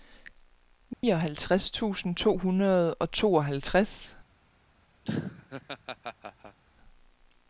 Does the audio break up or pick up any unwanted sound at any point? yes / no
yes